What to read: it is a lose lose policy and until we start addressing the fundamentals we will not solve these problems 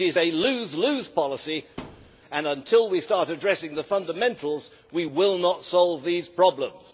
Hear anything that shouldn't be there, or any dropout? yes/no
yes